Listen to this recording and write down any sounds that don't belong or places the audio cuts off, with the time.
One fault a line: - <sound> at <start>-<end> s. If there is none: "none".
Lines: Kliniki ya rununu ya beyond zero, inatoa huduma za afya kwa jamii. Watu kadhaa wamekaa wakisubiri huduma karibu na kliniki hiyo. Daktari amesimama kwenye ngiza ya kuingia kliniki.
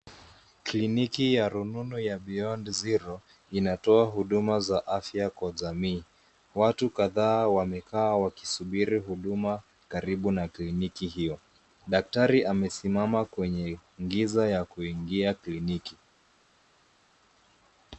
none